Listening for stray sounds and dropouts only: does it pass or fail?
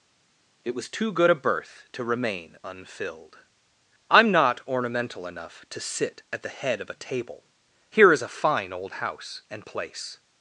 pass